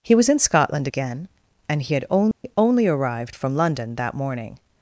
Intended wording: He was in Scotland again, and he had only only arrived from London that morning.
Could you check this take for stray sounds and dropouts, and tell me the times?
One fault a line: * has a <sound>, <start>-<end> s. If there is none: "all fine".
* has a dropout, 2.3-2.4 s